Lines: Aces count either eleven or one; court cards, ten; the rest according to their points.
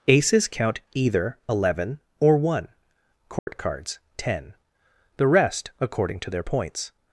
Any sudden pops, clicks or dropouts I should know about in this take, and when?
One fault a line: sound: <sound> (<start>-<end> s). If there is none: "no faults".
sound: dropout (3.4-3.5 s)